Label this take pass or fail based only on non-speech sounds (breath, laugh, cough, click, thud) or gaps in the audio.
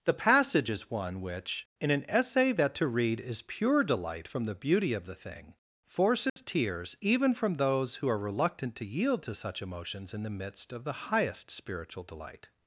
fail